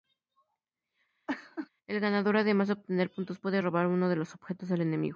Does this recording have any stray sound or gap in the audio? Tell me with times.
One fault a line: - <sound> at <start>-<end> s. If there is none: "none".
- laugh at 1.3-1.7 s